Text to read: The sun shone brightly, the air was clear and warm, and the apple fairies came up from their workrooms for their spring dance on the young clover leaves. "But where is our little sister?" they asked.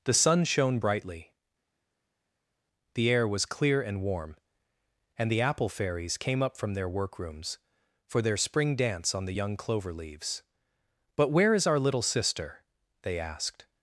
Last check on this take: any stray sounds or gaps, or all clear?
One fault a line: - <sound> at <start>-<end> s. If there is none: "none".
none